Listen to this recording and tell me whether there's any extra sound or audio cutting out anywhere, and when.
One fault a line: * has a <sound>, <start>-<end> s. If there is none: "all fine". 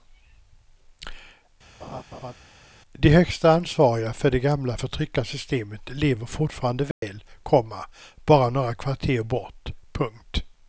* has a laugh, 1.8-2.3 s
* has a dropout, 6.9-7.0 s